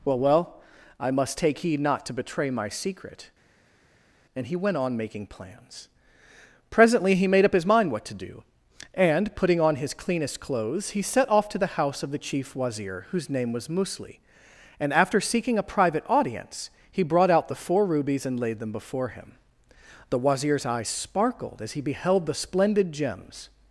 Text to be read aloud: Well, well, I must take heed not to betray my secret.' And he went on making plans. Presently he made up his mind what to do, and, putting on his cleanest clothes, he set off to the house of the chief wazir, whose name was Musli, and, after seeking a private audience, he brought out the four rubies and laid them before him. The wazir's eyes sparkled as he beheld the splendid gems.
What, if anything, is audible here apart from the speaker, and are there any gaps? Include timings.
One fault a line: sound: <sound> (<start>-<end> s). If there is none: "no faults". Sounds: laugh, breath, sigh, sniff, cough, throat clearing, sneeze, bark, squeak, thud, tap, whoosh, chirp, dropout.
no faults